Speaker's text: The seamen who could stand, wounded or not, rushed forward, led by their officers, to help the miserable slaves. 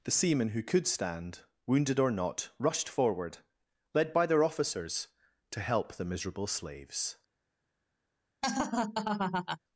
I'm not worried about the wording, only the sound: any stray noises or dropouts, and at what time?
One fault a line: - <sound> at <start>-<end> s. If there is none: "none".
- laugh at 8.4-9.6 s